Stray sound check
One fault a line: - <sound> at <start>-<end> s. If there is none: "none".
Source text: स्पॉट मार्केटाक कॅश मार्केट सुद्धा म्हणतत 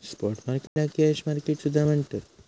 - dropout at 0.7-0.8 s